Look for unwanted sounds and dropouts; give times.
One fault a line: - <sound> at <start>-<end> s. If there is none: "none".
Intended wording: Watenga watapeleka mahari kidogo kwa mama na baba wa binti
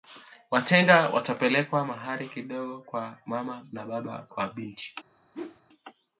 - whoosh at 5.3-5.6 s